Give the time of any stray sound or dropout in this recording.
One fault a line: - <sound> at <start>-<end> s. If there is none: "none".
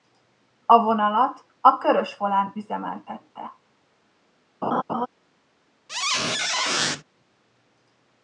- laugh at 4.6-5.1 s
- squeak at 5.9-7.0 s